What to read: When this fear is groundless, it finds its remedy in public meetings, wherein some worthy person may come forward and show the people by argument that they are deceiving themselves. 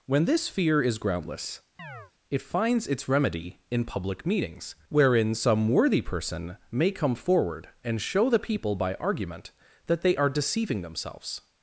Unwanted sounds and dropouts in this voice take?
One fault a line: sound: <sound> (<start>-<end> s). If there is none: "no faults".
sound: chirp (1.8-2.1 s)